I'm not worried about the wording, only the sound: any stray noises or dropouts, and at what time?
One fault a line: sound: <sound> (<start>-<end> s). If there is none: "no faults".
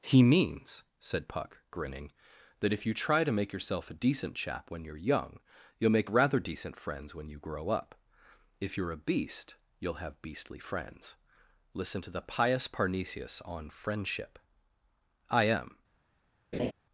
sound: laugh (16.5-16.7 s)